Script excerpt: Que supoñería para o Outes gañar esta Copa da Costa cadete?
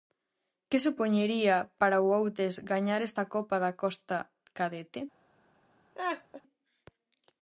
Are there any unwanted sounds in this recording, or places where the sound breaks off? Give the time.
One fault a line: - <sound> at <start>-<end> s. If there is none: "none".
- laugh at 5.9-6.4 s